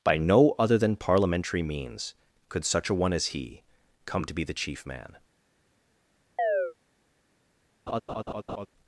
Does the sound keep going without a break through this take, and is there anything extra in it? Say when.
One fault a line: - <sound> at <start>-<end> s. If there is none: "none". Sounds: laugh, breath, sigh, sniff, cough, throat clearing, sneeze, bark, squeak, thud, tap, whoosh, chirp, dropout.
- chirp at 6.4-6.7 s
- laugh at 7.9-8.7 s